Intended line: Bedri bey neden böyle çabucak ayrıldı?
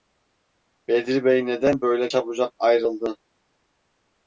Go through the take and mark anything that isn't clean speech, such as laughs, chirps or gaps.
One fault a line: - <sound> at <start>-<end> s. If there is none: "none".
none